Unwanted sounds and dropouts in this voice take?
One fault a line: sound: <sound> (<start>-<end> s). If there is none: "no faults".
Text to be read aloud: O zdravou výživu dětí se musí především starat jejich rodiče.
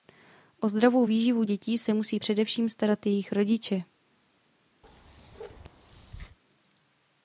sound: bark (4.8-6.4 s)